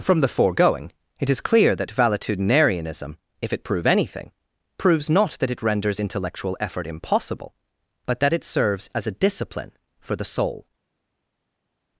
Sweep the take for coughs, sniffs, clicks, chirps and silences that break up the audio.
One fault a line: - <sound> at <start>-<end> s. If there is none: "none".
none